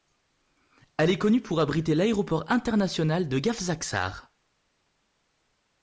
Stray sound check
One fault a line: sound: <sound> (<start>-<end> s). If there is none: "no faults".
no faults